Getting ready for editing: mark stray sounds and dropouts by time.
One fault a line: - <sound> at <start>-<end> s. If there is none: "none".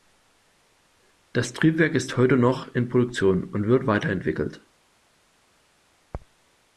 none